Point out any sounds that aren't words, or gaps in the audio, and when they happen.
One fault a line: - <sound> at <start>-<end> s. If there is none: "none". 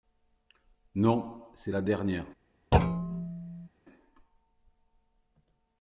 - thud at 2.7-3.7 s